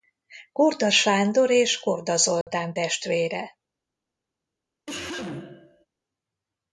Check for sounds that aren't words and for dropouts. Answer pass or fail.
fail